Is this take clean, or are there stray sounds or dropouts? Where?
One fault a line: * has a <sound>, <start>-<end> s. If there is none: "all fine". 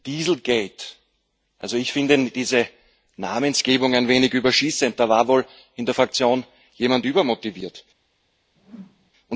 * has a whoosh, 8.5-9.1 s